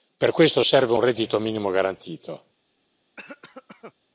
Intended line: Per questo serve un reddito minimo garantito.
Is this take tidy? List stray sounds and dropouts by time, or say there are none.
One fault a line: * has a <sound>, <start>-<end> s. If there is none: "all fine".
* has a cough, 3.2-3.9 s